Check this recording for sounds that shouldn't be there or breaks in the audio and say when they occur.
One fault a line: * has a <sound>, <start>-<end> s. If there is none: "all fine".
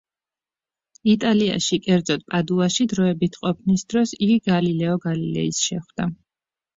all fine